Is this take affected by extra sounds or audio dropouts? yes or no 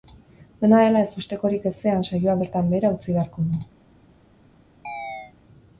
yes